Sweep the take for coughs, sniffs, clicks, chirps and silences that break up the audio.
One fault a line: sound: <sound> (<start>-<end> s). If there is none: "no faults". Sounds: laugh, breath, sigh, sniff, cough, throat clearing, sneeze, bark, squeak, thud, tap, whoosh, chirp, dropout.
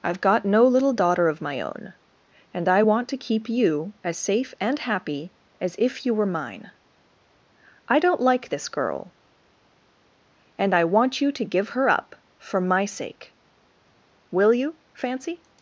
no faults